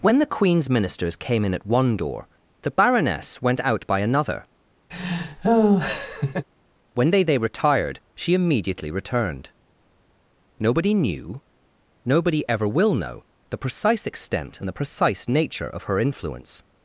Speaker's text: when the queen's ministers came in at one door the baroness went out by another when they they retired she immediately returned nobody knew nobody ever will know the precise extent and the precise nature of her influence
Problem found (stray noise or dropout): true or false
true